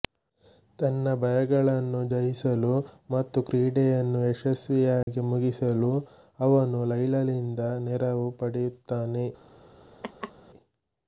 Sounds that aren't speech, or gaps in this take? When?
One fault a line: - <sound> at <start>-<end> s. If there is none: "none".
- dropout at 5.0-5.1 s
- laugh at 10.0-10.3 s